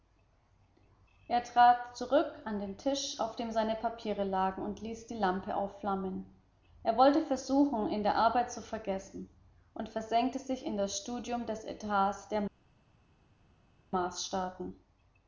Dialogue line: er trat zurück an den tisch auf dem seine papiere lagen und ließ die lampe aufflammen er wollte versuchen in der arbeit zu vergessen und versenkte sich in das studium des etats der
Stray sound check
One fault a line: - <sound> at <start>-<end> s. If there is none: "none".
none